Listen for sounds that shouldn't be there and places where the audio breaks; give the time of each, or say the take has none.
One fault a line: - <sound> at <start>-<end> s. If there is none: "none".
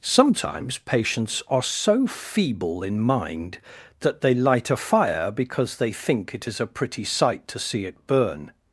none